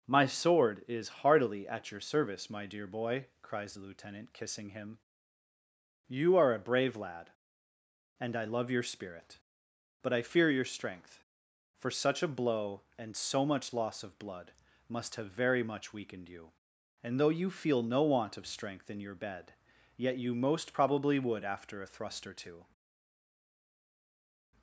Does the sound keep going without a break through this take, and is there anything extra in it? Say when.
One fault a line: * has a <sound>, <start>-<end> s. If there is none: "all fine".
all fine